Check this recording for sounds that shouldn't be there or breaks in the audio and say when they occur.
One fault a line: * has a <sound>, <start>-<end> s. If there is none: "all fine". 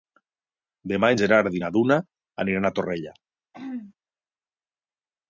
* has a throat clearing, 3.5-3.9 s